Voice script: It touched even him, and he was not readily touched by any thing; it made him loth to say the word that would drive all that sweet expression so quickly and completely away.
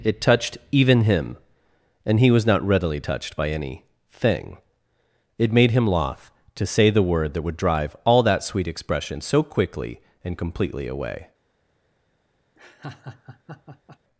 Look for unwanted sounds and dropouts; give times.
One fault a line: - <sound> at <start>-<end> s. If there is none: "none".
- laugh at 12.6-14.0 s